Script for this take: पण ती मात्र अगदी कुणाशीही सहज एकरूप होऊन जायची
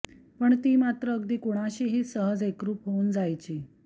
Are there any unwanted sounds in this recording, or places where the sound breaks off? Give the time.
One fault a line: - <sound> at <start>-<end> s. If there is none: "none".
none